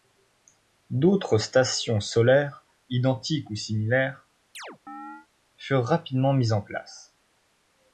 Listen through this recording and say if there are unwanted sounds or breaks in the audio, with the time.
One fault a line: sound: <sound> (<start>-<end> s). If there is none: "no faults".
sound: chirp (4.5-5.3 s)